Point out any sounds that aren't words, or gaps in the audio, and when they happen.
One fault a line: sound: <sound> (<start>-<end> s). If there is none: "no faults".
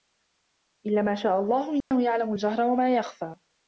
sound: dropout (1.8-1.9 s)